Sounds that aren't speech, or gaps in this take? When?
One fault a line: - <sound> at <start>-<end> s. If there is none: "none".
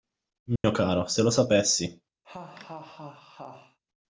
- dropout at 0.6-0.6 s
- laugh at 2.2-3.8 s